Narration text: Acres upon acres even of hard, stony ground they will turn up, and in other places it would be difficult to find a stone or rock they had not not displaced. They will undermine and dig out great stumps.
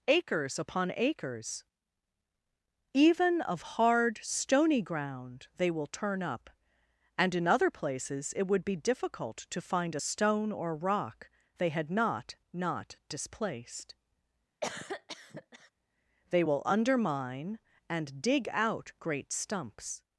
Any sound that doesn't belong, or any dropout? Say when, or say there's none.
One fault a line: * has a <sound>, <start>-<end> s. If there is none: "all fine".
* has a cough, 14.6-15.7 s